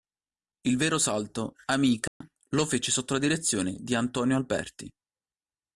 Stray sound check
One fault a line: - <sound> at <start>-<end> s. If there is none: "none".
- dropout at 2.1-2.2 s